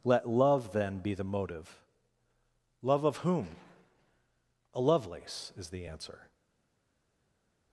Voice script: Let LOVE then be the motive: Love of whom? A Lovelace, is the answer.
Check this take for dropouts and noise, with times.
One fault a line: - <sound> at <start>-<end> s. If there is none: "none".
none